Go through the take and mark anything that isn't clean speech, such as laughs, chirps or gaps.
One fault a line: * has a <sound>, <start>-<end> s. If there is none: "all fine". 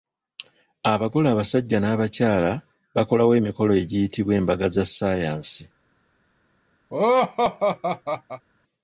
* has a laugh, 6.9-8.4 s